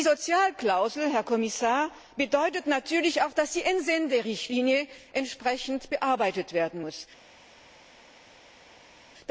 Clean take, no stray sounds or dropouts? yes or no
yes